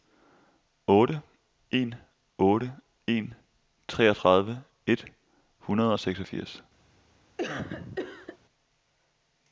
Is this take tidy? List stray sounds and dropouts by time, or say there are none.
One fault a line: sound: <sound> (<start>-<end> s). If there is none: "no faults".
sound: cough (7.4-8.4 s)